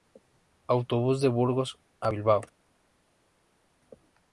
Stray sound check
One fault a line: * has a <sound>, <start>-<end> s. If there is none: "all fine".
all fine